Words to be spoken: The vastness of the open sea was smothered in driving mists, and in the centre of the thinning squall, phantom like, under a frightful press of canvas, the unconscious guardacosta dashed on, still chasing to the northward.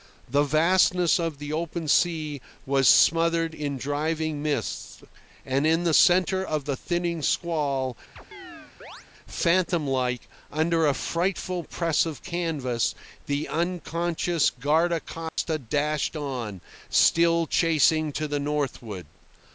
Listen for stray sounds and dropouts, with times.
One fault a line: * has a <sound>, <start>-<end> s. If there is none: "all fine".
* has a chirp, 8.2-9.1 s
* has a dropout, 15.3-15.4 s